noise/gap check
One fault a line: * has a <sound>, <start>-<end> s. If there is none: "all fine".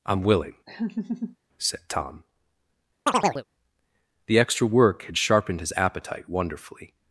* has a laugh, 0.7-1.4 s
* has a chirp, 3.1-3.4 s